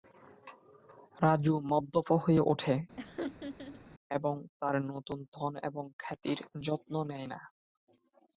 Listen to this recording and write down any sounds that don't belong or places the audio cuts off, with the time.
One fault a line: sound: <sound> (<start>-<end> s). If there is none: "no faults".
sound: laugh (3.0-3.8 s)